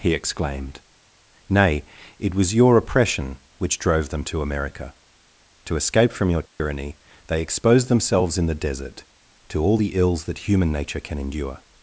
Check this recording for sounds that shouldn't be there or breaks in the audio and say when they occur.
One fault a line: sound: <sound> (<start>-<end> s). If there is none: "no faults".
sound: dropout (6.5-6.6 s)